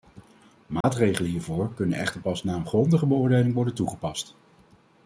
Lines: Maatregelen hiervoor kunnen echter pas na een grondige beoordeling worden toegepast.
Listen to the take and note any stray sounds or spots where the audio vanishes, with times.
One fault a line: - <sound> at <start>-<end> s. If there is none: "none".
- dropout at 0.8-0.8 s